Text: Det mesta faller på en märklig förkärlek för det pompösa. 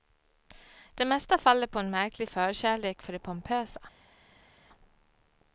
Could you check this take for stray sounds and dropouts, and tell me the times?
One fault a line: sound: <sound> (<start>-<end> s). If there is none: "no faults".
no faults